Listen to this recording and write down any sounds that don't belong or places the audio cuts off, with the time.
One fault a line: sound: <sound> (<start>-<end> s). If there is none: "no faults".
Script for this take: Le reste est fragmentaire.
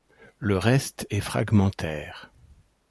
no faults